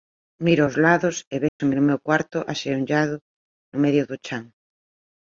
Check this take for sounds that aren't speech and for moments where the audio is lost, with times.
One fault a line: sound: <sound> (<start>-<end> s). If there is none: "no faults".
sound: dropout (1.5-1.6 s)